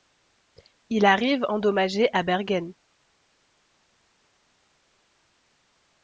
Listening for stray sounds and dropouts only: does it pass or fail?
pass